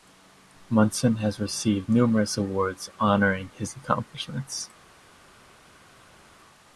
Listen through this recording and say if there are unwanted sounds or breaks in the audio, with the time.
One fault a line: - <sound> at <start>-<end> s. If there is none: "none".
none